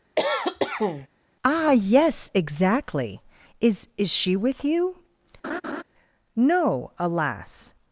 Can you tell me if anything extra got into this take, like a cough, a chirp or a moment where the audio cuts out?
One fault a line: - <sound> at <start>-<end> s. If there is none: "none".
- cough at 0.2-1.1 s
- laugh at 5.4-5.8 s